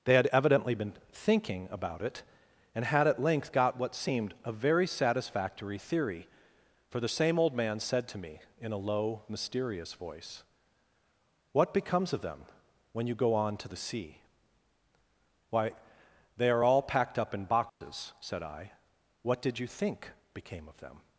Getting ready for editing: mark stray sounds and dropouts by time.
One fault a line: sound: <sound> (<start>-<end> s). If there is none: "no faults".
sound: dropout (17.7-17.8 s)